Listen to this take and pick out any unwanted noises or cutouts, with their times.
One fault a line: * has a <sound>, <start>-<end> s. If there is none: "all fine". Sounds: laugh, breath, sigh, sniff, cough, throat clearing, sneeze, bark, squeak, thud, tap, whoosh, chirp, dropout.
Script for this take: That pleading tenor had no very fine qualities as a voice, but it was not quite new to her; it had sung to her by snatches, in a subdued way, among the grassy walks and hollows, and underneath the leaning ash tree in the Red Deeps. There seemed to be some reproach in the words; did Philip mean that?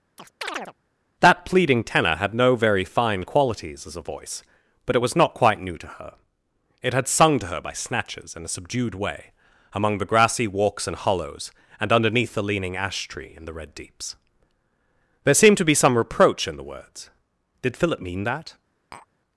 * has a chirp, 0.2-0.7 s
* has a tap, 18.9-19.1 s